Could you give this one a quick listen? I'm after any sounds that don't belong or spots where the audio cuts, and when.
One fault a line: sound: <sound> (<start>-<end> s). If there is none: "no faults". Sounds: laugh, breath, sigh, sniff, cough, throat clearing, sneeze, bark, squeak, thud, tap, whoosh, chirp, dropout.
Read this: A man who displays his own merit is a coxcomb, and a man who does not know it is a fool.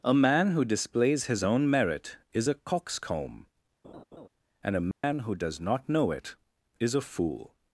sound: laugh (3.8-4.3 s)
sound: dropout (4.9-5.0 s)